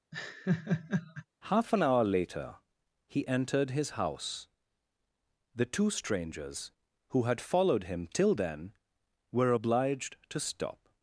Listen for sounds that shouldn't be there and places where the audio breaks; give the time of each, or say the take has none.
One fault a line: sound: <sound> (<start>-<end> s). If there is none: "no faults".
sound: laugh (0.1-1.3 s)